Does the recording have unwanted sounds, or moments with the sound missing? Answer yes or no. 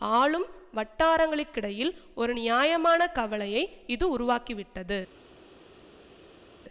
no